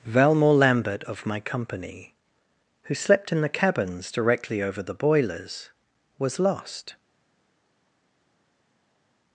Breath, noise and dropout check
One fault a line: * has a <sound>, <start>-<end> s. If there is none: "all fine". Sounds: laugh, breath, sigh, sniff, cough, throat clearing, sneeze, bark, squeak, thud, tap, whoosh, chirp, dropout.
all fine